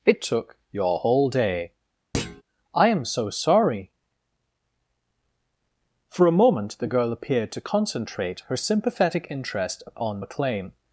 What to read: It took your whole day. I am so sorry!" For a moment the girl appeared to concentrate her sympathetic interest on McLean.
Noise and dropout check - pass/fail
fail